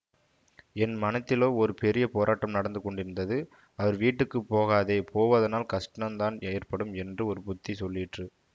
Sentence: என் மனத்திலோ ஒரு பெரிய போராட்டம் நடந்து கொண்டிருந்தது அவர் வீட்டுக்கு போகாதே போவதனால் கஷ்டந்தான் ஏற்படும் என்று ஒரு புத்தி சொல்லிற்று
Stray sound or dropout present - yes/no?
no